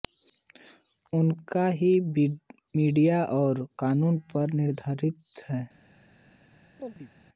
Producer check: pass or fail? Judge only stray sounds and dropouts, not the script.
fail